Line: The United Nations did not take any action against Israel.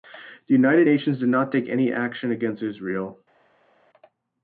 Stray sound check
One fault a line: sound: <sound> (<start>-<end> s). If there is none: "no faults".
no faults